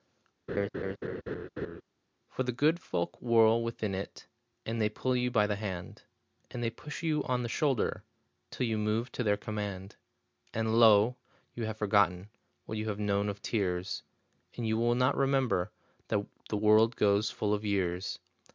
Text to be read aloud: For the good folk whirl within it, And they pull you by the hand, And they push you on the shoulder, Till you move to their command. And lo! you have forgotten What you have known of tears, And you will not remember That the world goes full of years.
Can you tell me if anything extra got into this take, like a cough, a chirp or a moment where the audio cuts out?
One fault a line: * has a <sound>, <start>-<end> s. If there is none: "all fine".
* has a laugh, 0.5-1.8 s